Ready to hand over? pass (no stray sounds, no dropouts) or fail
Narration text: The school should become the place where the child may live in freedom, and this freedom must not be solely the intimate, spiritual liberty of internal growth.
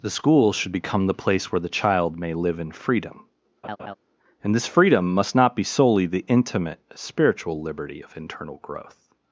fail